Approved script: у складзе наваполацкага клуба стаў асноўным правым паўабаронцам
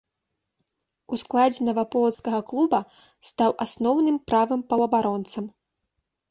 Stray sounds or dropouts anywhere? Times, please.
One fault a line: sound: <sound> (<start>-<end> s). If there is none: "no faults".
sound: dropout (2.1-2.2 s)